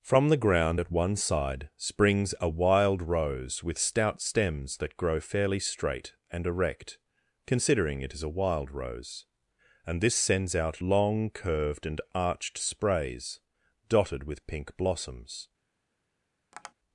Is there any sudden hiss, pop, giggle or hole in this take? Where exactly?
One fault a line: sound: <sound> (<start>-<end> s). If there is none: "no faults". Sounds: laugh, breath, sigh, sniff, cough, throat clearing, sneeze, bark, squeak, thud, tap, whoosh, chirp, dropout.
sound: tap (16.5-16.7 s)